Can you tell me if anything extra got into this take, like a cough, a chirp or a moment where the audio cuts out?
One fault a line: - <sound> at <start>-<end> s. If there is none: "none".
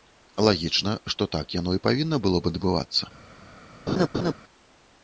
- laugh at 3.9-4.3 s